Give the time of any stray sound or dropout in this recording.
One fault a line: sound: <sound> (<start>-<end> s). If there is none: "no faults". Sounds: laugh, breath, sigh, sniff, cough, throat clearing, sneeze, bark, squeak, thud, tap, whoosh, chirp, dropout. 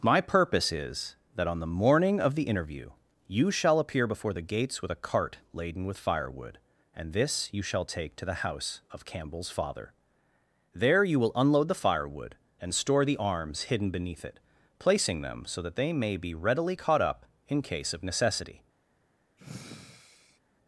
sound: sigh (19.4-20.4 s)